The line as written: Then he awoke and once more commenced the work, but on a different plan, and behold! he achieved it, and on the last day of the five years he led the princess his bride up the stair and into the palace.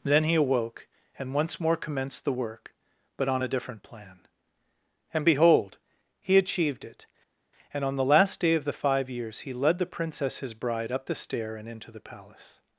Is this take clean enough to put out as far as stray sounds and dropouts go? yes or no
yes